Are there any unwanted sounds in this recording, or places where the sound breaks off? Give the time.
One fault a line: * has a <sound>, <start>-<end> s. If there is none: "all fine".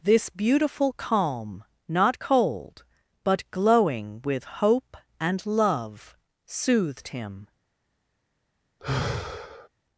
* has a sigh, 8.8-9.7 s